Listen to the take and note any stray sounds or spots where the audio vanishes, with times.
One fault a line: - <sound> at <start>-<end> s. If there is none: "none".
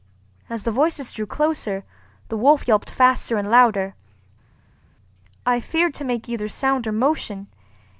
none